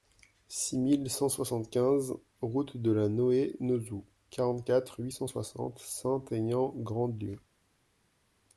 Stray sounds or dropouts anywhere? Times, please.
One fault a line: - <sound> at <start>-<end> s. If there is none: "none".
none